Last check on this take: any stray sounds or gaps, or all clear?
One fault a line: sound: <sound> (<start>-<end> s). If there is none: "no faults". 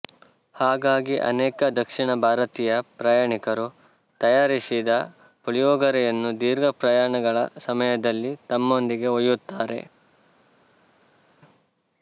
no faults